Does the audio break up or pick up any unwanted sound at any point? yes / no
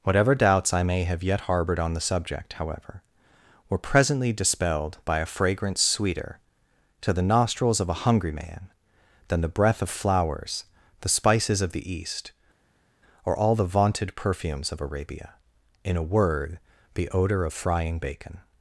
no